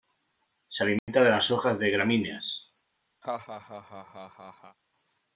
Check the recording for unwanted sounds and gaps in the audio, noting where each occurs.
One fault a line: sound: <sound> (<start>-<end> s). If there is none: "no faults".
sound: dropout (1.0-1.1 s)
sound: laugh (3.2-4.8 s)